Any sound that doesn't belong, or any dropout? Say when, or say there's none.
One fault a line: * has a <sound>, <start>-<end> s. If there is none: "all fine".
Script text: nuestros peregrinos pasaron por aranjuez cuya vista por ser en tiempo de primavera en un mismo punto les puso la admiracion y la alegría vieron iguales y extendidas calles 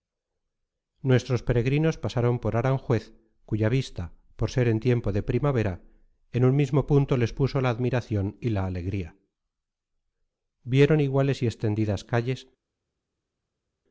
all fine